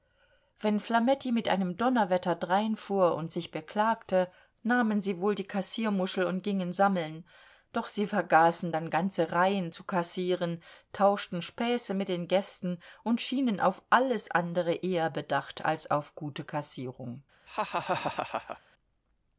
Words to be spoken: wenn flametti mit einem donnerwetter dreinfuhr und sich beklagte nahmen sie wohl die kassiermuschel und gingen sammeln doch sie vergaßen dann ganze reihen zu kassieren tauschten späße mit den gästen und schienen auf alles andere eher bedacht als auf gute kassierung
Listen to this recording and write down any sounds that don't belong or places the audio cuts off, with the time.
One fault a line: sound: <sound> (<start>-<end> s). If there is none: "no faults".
sound: laugh (17.5-18.6 s)